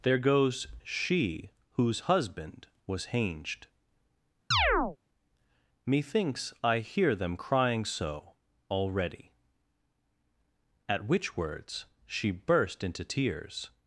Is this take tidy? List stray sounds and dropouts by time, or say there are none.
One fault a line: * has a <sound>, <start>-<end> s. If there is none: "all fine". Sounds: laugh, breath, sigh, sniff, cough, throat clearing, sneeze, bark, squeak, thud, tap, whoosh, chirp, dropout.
* has a chirp, 4.5-5.0 s